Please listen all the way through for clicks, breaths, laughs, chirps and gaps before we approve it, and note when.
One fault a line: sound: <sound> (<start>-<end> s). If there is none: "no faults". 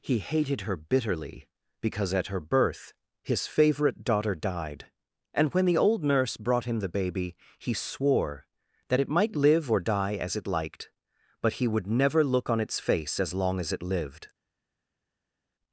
no faults